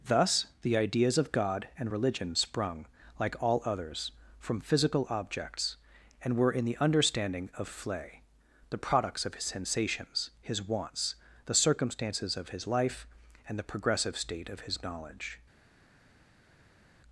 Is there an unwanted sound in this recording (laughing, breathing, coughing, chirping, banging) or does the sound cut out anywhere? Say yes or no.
no